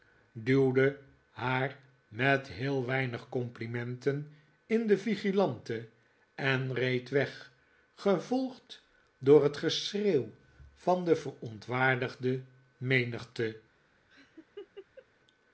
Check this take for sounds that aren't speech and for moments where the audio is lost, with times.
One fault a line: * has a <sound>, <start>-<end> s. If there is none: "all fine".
* has a laugh, 14.1-15.1 s